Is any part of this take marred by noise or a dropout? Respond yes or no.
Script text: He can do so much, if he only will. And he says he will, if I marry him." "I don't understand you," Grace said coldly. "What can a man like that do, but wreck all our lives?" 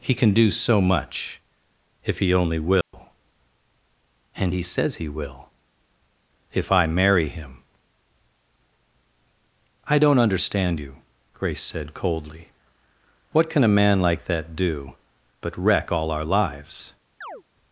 yes